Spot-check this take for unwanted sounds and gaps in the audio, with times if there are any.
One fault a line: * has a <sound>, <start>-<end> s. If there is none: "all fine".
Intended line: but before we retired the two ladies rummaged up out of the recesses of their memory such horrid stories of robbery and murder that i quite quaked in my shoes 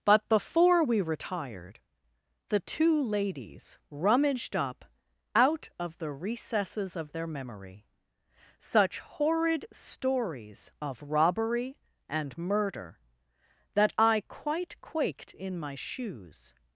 all fine